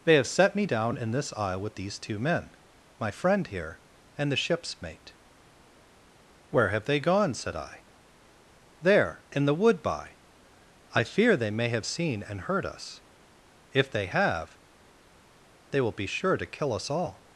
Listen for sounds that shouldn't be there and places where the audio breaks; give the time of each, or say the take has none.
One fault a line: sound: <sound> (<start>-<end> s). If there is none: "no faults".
no faults